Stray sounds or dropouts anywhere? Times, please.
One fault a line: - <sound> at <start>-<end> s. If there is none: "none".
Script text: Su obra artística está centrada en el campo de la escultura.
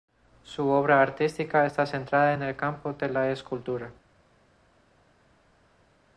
none